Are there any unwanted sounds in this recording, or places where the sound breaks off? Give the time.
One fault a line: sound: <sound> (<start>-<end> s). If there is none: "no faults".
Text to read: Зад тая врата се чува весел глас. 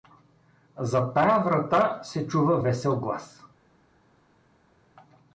no faults